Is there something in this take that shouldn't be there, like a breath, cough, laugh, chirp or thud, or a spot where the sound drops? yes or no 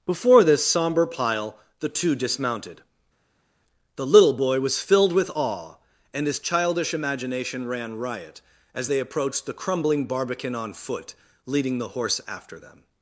no